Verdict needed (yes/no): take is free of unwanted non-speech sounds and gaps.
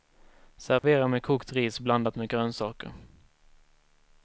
no